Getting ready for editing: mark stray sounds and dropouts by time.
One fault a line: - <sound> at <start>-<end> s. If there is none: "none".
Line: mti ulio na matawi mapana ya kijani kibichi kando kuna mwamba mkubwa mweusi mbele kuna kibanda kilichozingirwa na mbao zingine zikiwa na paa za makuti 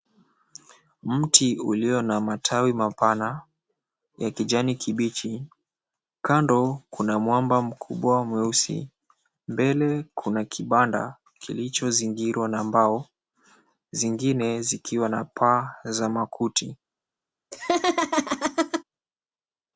- laugh at 17.5-18.8 s